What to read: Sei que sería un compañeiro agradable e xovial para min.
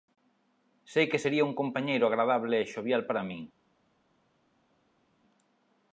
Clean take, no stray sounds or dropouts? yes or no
yes